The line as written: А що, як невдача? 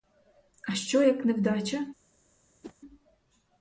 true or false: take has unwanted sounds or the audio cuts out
true